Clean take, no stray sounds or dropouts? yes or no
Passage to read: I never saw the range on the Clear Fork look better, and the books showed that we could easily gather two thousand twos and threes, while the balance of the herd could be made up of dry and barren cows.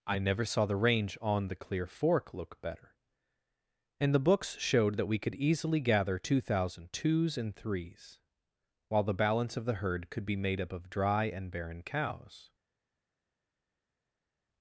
yes